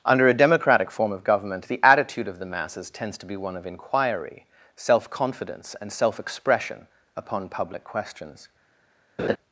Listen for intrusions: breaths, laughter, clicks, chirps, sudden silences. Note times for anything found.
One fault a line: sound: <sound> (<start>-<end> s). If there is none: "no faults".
sound: laugh (9.2-9.4 s)